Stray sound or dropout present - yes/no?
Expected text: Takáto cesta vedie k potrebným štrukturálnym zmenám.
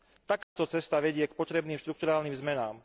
yes